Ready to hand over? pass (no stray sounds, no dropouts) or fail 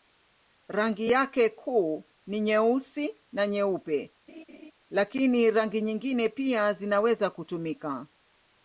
fail